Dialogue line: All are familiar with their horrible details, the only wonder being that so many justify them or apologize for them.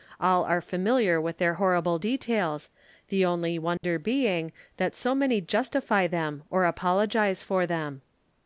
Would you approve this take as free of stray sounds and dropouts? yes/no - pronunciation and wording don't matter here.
no